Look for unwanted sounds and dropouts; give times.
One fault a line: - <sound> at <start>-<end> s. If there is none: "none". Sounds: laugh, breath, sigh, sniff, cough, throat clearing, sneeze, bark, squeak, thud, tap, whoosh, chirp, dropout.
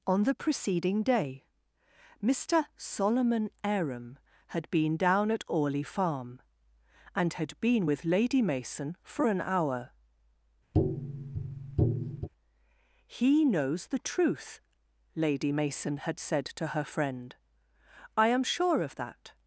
- tap at 10.7-12.3 s